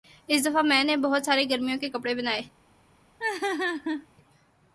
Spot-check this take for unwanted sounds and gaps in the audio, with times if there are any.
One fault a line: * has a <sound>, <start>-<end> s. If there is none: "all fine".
* has a laugh, 3.2-4.1 s